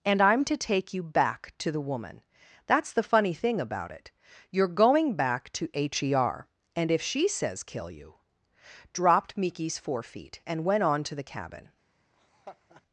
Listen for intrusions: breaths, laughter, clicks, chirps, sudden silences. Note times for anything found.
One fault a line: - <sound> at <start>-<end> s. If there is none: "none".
- laugh at 12.1-12.8 s